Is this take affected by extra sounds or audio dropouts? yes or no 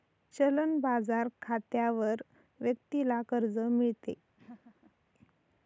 yes